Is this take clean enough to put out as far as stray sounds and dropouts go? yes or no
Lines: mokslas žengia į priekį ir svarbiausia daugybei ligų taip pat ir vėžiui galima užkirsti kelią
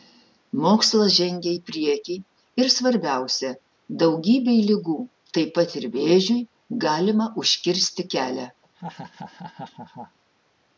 no